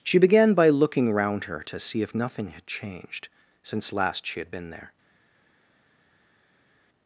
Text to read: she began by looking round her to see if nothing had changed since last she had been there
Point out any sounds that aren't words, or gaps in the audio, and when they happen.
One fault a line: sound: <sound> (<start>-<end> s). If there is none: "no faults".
no faults